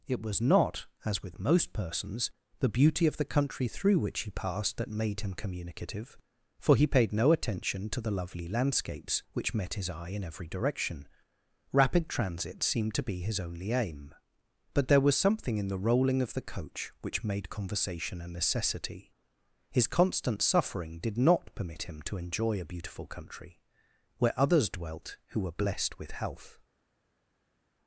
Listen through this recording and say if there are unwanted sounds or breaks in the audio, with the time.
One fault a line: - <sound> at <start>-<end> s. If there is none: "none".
none